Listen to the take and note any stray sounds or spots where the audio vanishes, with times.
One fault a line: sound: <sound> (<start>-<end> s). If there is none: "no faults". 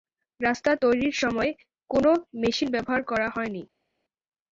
no faults